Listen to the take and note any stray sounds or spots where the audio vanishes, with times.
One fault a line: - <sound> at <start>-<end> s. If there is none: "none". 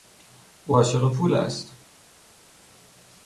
none